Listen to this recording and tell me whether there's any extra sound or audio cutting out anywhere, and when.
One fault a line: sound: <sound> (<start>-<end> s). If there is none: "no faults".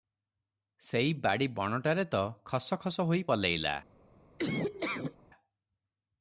sound: laugh (4.4-5.2 s)